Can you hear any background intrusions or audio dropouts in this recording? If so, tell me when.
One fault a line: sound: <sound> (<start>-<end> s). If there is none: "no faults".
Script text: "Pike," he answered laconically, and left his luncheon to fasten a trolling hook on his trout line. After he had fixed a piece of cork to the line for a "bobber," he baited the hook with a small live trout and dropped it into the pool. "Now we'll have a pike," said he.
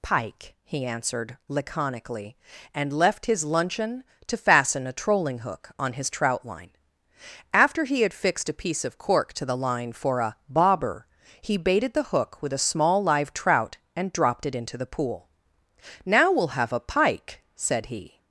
no faults